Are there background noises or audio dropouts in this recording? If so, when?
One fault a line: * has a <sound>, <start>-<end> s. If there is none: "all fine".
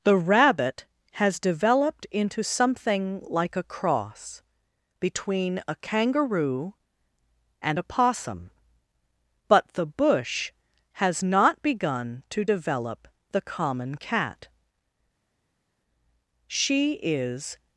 all fine